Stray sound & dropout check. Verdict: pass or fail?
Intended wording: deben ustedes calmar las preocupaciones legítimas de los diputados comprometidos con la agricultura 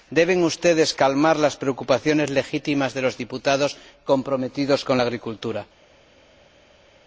pass